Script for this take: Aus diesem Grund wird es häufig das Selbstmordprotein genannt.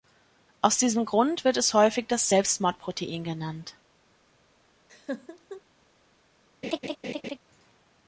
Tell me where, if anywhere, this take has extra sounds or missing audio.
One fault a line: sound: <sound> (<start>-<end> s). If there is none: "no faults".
sound: laugh (4.9-5.6 s)
sound: laugh (6.6-7.4 s)